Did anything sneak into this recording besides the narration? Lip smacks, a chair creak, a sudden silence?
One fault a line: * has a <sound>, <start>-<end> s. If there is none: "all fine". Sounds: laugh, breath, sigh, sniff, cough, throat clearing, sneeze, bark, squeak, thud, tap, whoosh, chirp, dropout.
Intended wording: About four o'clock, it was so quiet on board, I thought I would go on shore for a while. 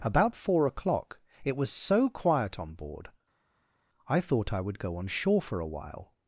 all fine